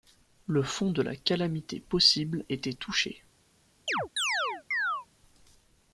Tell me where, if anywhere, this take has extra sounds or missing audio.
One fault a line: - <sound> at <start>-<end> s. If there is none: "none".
- chirp at 3.9-5.1 s